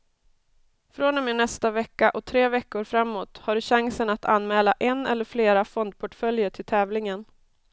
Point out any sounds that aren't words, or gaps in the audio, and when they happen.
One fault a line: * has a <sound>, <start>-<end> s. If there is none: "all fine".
all fine